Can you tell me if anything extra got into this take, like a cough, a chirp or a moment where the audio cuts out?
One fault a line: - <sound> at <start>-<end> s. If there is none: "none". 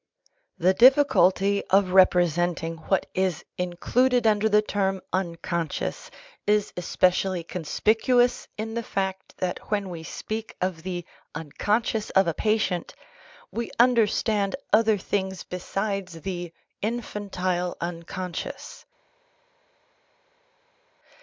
none